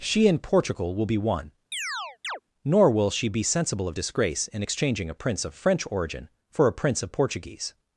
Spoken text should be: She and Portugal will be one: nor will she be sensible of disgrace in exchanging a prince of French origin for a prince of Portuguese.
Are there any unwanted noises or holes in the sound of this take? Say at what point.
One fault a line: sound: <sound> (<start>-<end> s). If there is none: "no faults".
sound: chirp (1.7-2.4 s)